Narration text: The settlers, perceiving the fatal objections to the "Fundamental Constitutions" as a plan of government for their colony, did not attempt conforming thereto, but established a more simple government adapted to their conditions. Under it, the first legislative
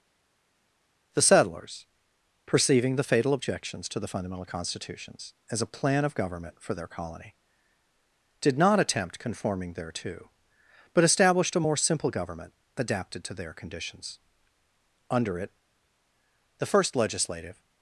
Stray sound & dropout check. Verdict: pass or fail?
pass